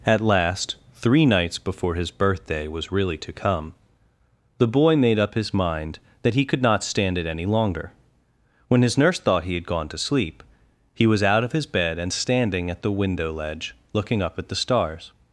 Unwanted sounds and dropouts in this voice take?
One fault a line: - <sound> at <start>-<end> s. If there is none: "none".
none